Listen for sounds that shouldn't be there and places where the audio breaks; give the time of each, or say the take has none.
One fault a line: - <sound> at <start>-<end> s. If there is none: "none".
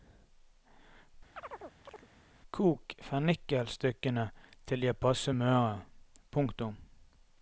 - chirp at 1.4-2.1 s